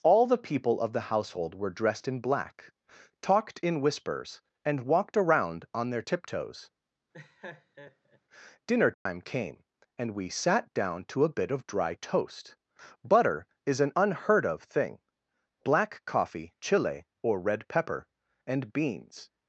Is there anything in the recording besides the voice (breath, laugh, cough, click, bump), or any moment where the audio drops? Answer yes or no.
yes